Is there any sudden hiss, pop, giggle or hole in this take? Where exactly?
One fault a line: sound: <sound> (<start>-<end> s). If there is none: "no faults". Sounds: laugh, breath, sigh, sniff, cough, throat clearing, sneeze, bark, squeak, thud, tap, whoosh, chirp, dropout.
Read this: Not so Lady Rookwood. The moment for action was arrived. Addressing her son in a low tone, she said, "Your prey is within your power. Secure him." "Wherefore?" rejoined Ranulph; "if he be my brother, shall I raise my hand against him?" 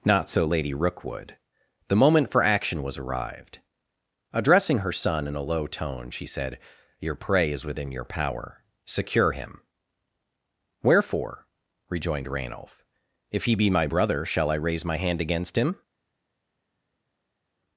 no faults